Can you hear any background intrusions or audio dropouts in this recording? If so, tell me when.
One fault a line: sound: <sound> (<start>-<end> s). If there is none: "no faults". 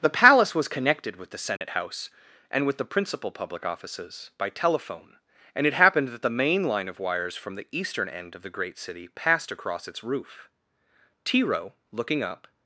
sound: dropout (1.6-1.6 s)